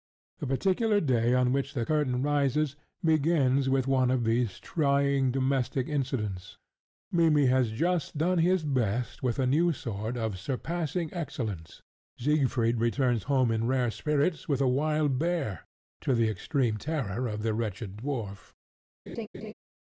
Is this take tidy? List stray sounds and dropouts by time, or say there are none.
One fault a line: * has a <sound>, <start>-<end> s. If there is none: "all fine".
* has a laugh, 19.1-19.5 s